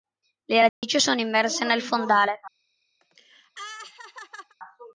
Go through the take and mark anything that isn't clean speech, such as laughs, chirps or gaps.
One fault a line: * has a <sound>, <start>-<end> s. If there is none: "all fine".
* has a dropout, 0.7-0.8 s
* has a laugh, 3.0-4.5 s